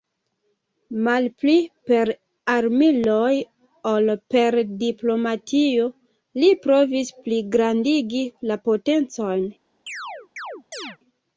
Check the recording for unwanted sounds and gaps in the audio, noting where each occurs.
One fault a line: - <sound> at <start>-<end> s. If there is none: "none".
- chirp at 9.9-11.0 s